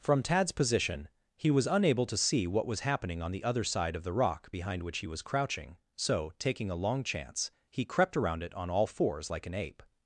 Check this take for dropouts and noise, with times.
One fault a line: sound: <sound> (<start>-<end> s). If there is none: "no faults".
no faults